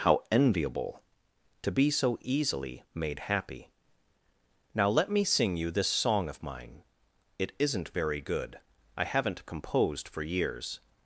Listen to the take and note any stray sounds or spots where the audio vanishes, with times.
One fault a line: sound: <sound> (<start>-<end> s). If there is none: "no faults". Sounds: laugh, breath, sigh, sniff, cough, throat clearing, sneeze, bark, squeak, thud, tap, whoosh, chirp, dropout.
no faults